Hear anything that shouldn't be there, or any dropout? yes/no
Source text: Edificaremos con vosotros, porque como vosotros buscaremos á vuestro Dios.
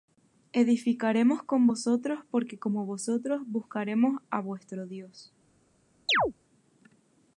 yes